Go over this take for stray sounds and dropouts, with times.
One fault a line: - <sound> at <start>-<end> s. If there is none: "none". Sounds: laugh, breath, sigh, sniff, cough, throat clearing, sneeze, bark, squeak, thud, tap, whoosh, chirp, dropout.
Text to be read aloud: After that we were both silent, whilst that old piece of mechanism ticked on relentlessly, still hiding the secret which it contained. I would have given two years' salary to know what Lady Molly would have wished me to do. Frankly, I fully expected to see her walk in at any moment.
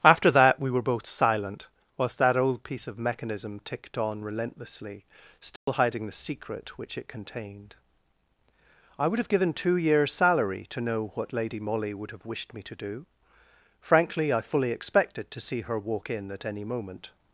- dropout at 5.6-5.7 s